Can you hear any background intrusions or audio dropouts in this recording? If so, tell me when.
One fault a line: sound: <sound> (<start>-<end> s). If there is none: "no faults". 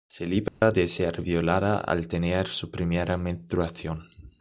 sound: dropout (0.5-0.6 s)